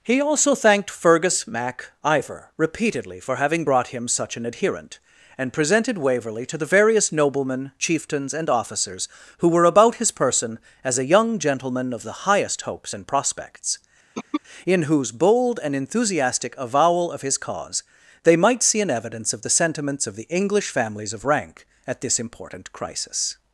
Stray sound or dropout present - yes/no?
yes